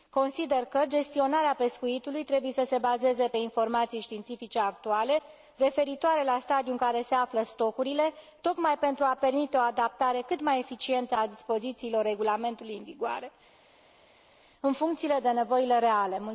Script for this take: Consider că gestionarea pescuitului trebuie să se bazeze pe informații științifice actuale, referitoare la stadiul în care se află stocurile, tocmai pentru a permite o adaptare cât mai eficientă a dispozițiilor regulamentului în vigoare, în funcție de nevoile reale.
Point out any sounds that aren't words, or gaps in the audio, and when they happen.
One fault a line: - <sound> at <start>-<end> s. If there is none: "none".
none